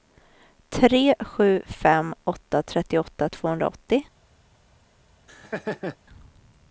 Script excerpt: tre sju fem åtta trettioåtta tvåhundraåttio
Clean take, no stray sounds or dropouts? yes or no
no